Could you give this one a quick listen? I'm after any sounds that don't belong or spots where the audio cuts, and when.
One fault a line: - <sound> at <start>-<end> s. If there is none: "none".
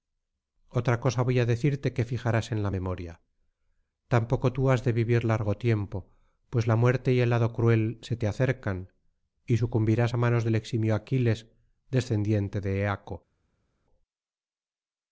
none